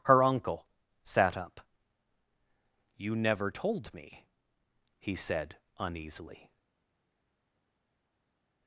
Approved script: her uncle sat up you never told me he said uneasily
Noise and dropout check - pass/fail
pass